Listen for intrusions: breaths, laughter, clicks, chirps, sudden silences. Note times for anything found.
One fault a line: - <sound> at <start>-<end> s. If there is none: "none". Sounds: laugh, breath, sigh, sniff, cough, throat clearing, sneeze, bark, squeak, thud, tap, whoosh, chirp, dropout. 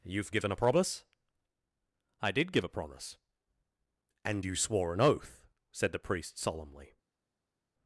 none